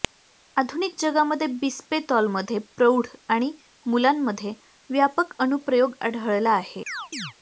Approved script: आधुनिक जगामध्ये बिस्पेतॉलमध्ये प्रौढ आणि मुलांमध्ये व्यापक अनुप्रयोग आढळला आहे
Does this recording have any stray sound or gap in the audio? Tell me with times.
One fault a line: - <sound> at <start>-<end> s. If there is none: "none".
- chirp at 6.9-7.3 s